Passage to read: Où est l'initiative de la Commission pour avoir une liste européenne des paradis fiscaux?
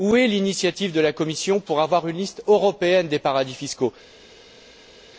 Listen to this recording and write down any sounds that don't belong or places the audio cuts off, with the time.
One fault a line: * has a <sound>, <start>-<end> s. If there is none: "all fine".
all fine